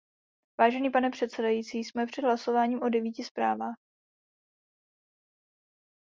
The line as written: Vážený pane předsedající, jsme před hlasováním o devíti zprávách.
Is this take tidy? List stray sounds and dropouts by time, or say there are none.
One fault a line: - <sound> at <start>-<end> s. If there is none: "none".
none